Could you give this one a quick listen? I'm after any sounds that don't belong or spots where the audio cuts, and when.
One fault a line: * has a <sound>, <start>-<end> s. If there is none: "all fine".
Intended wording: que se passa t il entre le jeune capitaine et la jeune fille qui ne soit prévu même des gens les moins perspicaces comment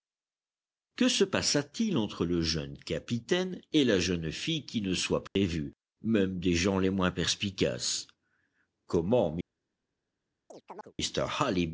* has a dropout, 5.3-5.4 s
* has a chirp, 10.5-10.9 s